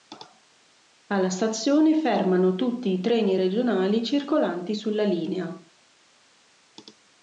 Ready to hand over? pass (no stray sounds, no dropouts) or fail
pass